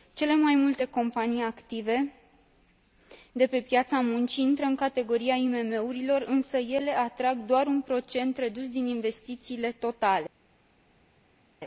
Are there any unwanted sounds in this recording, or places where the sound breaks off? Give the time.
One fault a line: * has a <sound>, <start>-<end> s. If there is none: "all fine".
all fine